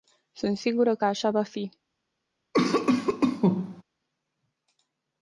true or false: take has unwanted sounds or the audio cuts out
true